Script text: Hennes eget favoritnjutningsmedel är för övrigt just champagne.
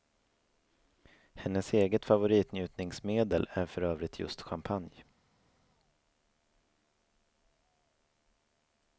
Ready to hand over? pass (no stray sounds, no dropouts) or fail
pass